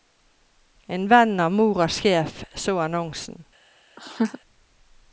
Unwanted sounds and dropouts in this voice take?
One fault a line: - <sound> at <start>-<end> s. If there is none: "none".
- laugh at 4.0-4.4 s